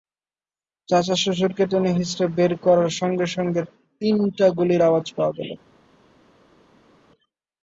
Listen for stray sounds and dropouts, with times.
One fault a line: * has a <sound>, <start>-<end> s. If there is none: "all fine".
all fine